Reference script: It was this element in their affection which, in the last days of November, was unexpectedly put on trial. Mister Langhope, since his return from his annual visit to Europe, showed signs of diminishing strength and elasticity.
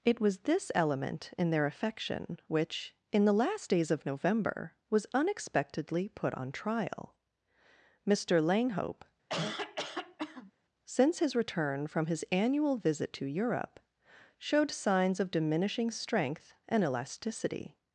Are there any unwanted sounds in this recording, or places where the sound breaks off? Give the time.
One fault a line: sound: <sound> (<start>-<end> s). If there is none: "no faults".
sound: cough (9.3-10.5 s)